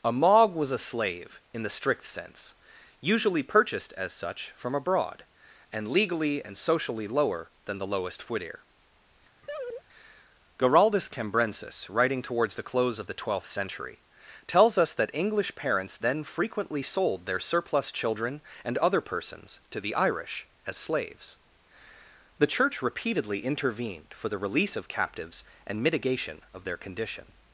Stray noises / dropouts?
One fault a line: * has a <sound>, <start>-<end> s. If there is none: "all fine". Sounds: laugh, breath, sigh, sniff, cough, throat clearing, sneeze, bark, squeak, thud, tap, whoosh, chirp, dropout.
* has a laugh, 9.4-9.8 s